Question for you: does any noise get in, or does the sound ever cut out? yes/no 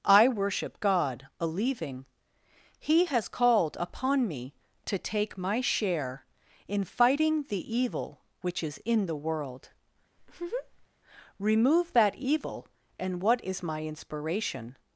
yes